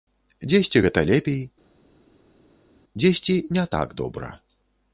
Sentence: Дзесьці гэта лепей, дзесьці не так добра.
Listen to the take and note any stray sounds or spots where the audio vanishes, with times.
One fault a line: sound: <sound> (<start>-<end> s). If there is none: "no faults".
no faults